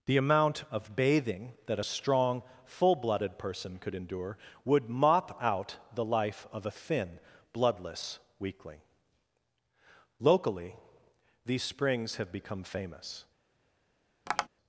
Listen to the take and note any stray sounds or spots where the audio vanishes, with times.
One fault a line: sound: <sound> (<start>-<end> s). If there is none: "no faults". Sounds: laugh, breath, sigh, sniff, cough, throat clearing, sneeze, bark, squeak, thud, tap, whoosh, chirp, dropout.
sound: tap (14.3-14.5 s)